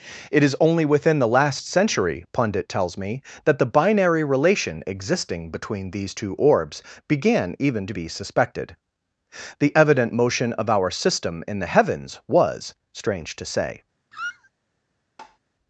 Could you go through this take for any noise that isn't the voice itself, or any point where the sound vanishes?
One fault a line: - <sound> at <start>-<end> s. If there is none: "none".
- squeak at 14.1-14.5 s
- tap at 15.2-15.4 s